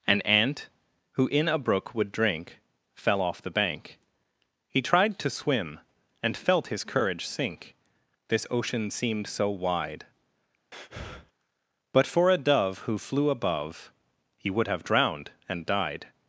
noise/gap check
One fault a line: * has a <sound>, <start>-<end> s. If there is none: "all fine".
* has a breath, 10.7-11.3 s